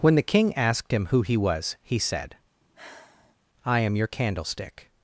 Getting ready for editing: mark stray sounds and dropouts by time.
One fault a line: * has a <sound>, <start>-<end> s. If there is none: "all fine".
* has a sigh, 2.6-3.4 s